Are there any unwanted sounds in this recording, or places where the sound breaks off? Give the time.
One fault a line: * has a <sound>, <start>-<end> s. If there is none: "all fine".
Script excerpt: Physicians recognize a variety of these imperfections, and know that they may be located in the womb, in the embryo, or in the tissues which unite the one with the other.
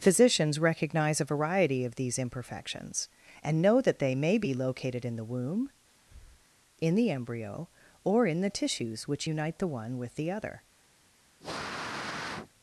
* has a breath, 5.9-6.5 s
* has a sniff, 11.4-12.5 s